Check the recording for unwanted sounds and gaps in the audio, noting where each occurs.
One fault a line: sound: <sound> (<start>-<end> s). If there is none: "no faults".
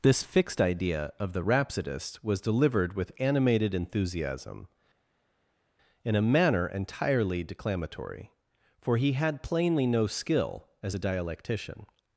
no faults